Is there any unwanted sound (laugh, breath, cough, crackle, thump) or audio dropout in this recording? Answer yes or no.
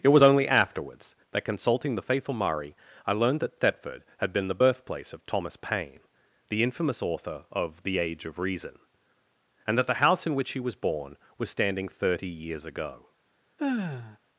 yes